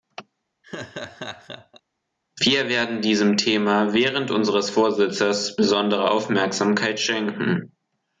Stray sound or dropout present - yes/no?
yes